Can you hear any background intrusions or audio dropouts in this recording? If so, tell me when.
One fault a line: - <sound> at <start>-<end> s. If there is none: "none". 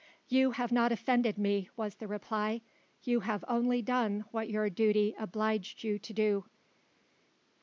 none